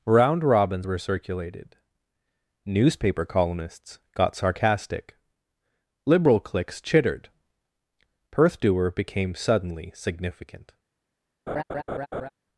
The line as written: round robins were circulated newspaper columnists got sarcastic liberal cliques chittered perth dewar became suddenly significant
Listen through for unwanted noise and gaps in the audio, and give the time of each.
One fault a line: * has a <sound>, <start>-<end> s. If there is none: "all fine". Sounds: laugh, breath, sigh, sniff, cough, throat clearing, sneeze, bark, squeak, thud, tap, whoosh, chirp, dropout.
* has a laugh, 11.5-12.3 s